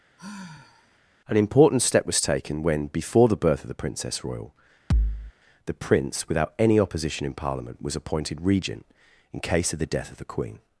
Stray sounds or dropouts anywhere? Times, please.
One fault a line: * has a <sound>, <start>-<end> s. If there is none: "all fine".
* has a sigh, 0.2-1.0 s
* has a thud, 4.9-5.3 s